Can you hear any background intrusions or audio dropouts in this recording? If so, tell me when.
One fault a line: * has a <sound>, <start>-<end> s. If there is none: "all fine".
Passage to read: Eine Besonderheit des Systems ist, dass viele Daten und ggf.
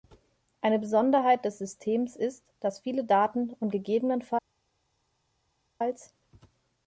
all fine